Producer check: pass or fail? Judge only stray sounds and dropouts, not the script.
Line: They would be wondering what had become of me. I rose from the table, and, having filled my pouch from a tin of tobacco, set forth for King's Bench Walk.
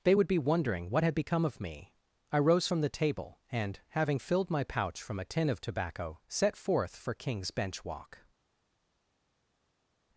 pass